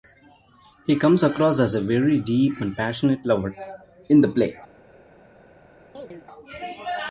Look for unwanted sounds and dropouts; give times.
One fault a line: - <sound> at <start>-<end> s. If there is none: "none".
- chirp at 5.9-6.3 s